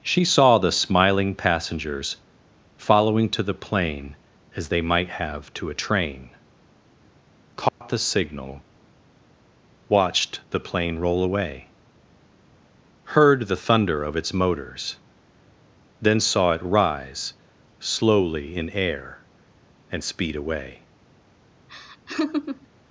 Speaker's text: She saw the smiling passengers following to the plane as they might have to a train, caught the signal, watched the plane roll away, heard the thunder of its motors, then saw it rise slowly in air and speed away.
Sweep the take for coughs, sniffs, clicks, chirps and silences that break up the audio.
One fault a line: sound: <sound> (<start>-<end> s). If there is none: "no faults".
sound: dropout (7.7-7.8 s)
sound: laugh (21.7-22.7 s)